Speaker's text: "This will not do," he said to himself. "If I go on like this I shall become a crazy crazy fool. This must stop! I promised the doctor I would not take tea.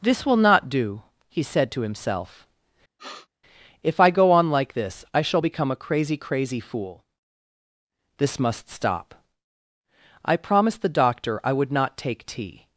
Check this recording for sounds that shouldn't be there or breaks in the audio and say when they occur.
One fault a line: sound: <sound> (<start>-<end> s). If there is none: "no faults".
sound: sniff (3.0-3.3 s)